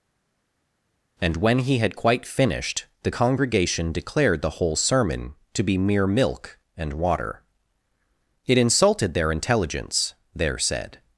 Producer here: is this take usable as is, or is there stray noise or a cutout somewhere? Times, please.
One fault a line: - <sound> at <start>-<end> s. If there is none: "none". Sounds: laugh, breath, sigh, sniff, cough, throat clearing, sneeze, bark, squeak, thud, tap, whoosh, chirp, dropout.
none